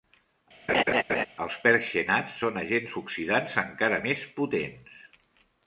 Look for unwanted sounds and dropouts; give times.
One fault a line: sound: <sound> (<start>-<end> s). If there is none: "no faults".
sound: laugh (0.7-1.3 s)